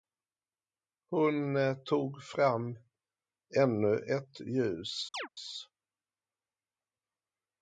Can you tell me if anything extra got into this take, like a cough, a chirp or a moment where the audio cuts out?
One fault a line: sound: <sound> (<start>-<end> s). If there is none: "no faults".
sound: chirp (5.1-5.3 s)